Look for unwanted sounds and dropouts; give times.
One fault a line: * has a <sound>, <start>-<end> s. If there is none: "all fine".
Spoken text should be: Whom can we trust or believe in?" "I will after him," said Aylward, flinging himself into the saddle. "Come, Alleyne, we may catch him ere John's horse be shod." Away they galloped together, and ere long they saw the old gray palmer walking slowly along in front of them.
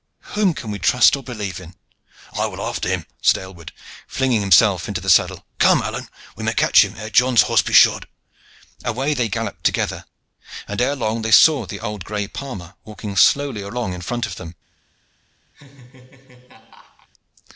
* has a laugh, 15.5-17.1 s